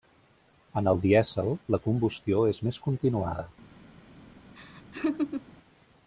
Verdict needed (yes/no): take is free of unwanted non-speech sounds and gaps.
no